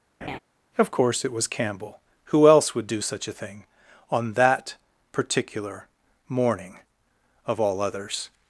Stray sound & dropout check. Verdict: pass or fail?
fail